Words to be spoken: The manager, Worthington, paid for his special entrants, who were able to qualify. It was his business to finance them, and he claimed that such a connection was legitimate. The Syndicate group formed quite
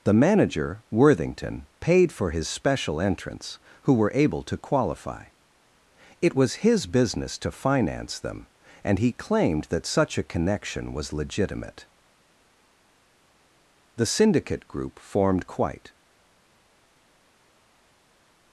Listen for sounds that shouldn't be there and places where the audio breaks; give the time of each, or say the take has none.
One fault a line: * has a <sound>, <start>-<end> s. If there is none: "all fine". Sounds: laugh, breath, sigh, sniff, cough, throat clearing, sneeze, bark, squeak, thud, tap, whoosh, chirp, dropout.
all fine